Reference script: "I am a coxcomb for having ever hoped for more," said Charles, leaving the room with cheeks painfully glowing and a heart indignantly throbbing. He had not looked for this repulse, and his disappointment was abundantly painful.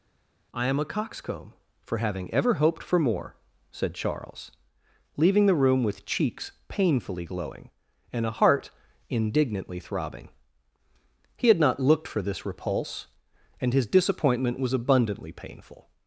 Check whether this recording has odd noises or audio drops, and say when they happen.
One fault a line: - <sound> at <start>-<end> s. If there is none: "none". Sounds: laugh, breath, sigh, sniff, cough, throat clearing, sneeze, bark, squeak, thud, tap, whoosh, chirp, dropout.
none